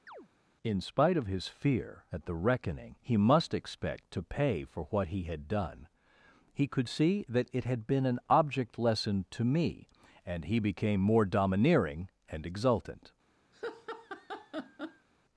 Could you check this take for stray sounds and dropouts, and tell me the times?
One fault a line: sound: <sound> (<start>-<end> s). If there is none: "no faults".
sound: chirp (0.1-0.3 s)
sound: laugh (13.5-15.1 s)